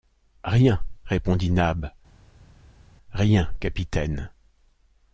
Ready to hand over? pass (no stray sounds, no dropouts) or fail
pass